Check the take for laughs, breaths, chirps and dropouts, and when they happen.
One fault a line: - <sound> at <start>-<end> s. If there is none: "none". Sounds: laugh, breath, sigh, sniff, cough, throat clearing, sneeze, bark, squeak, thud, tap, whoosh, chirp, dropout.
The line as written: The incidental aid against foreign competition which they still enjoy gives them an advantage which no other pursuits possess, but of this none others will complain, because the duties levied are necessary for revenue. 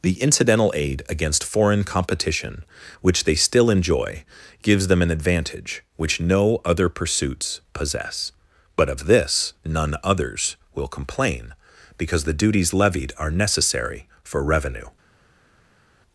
none